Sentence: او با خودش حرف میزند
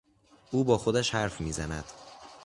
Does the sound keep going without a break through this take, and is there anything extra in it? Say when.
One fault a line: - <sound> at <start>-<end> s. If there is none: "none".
none